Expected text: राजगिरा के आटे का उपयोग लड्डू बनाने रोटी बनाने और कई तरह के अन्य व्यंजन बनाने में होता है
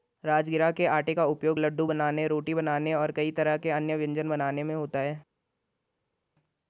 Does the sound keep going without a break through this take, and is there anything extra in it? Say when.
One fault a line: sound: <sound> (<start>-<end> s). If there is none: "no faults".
no faults